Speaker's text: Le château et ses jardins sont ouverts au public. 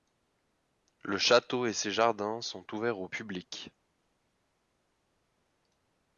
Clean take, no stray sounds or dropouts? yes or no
yes